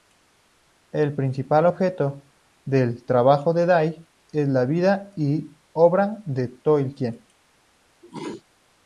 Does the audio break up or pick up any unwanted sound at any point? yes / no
yes